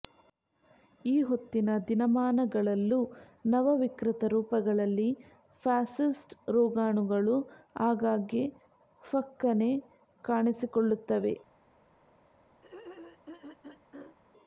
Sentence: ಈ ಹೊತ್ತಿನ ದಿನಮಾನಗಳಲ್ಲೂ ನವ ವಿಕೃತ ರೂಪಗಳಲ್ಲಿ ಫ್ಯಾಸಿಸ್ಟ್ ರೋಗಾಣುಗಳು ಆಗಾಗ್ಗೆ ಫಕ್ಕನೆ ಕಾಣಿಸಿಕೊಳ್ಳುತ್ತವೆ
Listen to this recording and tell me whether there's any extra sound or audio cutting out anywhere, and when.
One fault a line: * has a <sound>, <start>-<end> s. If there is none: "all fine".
* has a throat clearing, 12.6-14.2 s